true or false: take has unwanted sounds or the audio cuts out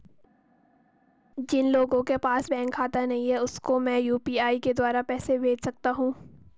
false